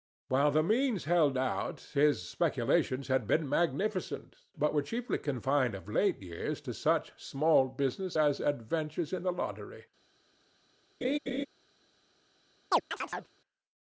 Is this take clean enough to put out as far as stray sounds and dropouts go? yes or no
no